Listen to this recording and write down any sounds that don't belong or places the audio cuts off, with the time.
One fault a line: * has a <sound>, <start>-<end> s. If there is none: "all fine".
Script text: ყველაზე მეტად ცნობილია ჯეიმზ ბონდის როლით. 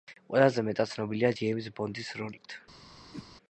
* has a whoosh, 3.1-3.3 s